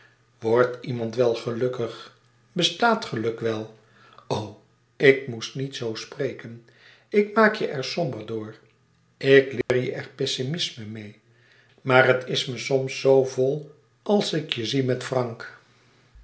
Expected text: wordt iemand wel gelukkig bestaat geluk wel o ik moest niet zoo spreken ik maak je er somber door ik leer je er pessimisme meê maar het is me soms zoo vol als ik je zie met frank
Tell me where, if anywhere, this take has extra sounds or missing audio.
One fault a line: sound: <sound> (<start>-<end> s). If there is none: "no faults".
sound: dropout (9.6-9.7 s)